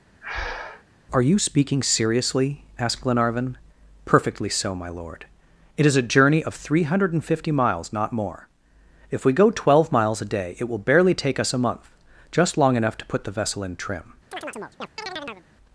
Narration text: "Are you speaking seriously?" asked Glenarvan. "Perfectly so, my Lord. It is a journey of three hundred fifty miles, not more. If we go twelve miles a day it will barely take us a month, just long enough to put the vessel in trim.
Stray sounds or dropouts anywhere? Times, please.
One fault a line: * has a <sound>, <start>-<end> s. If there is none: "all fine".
* has a breath, 0.2-0.8 s
* has a chirp, 14.3-15.5 s